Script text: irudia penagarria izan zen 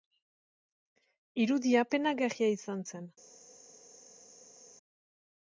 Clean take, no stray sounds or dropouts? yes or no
yes